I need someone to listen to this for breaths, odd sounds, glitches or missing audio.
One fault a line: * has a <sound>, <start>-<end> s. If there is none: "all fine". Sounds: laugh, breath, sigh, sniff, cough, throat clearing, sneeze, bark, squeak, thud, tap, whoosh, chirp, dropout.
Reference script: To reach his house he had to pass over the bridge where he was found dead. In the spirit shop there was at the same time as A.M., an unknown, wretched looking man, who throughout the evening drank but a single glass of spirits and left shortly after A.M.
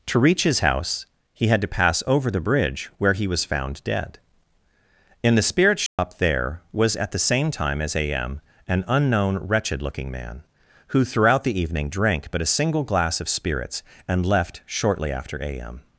* has a dropout, 5.9-6.0 s